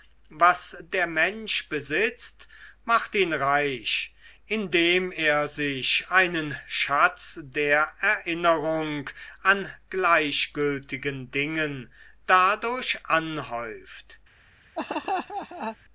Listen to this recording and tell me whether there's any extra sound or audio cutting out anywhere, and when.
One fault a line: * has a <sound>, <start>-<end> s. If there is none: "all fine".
* has a laugh, 14.8-15.8 s